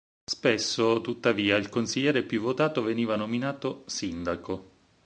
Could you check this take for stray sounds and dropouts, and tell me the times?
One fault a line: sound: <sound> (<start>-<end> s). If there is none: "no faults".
no faults